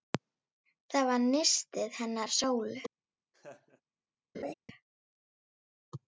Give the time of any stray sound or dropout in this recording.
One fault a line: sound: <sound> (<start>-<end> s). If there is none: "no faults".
sound: laugh (3.3-3.8 s)
sound: laugh (4.3-4.5 s)